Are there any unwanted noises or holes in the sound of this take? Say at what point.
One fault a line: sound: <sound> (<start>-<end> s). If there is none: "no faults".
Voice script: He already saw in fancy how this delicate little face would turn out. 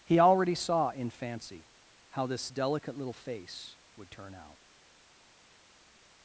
no faults